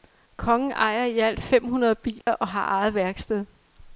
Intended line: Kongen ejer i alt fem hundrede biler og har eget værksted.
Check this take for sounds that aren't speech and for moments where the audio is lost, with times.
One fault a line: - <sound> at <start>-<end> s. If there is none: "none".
- dropout at 2.2-2.3 s